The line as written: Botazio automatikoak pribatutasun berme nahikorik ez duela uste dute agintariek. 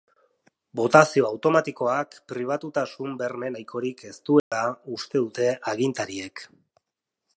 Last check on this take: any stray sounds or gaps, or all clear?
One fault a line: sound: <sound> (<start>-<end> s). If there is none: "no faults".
sound: dropout (4.4-4.5 s)